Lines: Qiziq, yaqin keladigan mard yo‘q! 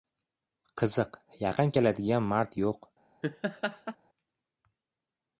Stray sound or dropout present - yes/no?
yes